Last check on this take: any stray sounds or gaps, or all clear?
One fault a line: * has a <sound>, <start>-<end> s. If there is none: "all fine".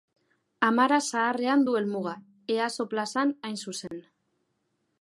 * has a dropout, 3.9-3.9 s